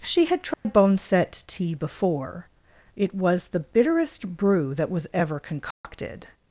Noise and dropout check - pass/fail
fail